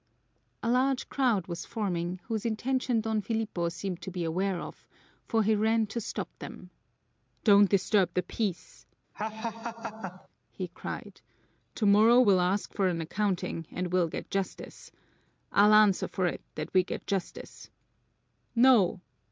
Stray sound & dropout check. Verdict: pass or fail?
fail